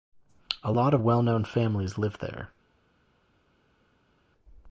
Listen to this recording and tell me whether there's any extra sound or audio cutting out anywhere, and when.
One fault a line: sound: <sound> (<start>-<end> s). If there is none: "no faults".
no faults